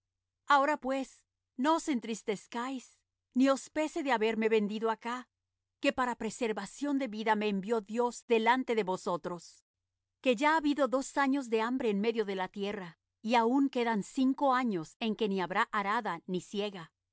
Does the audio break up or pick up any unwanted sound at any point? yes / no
no